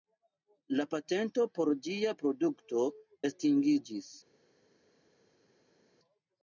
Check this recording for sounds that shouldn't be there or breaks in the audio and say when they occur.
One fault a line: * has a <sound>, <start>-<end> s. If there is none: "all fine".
all fine